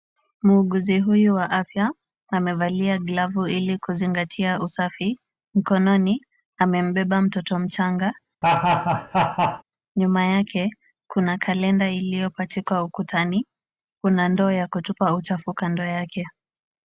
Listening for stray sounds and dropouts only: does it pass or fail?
fail